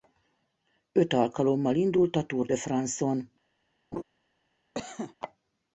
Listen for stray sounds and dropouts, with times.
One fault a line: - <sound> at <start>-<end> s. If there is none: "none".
- laugh at 3.9-4.0 s
- cough at 4.7-5.2 s